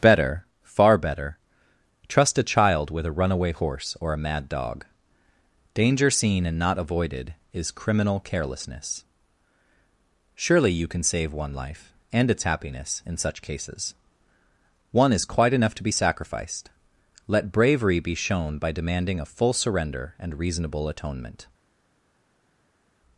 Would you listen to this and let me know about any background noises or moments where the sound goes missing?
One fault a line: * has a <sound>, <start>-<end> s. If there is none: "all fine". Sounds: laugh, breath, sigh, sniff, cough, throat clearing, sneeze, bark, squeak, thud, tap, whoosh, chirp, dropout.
all fine